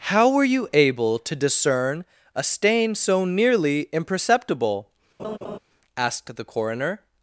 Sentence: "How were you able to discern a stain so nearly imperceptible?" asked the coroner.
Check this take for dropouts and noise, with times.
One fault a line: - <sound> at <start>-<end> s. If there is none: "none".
- laugh at 5.2-5.6 s